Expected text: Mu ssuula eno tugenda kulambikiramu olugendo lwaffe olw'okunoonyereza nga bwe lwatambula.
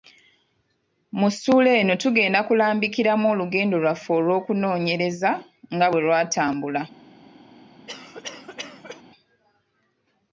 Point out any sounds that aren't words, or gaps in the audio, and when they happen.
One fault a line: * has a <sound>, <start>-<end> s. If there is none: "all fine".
* has a cough, 7.9-9.0 s